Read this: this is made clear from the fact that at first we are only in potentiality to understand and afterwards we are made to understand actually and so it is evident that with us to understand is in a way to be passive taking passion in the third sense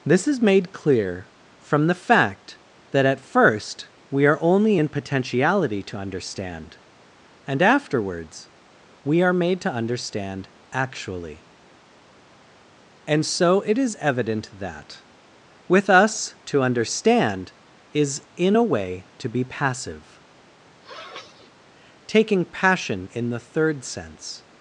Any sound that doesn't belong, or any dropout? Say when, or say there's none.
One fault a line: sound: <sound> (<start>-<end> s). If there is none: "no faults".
sound: sniff (20.8-21.5 s)